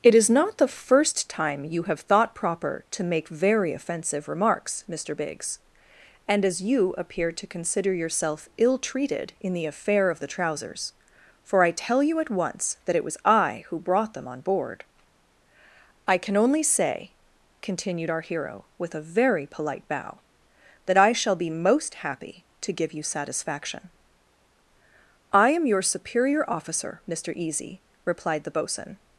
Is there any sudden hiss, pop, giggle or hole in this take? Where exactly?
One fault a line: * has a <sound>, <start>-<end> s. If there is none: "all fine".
all fine